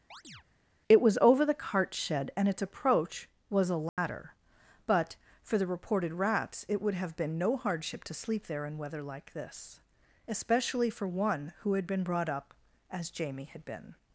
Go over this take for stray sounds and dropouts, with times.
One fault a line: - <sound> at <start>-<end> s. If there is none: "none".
- chirp at 0.1-0.4 s
- dropout at 3.9-4.0 s